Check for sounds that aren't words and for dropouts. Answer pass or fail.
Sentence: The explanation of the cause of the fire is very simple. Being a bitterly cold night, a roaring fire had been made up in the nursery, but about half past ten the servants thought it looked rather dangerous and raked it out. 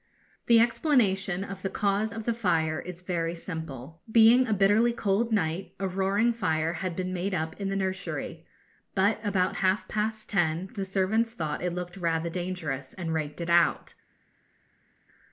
pass